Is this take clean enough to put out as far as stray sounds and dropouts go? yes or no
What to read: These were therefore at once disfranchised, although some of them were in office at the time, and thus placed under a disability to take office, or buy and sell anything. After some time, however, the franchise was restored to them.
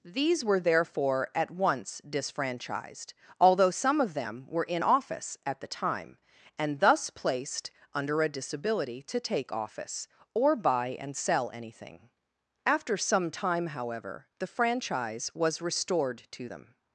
yes